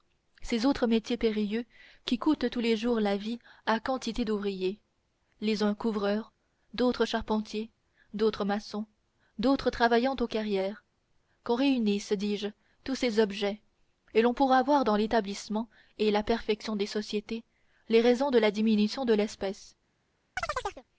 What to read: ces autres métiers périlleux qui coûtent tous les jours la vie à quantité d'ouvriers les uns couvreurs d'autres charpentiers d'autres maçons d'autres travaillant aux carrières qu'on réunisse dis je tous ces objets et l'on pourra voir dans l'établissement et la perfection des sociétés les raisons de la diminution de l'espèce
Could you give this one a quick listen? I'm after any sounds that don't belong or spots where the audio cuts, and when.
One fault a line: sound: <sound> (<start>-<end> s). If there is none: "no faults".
sound: chirp (20.4-20.8 s)